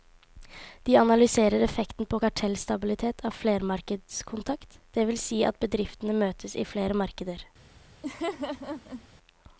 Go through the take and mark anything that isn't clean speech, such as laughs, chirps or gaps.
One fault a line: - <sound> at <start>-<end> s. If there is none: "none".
- laugh at 8.0-9.1 s